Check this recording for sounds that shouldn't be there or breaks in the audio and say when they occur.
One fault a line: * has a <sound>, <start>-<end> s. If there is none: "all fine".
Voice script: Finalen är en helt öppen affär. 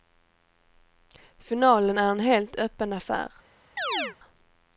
* has a chirp, 3.8-4.2 s